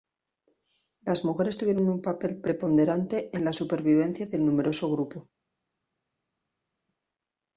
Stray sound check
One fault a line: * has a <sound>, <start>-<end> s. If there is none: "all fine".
all fine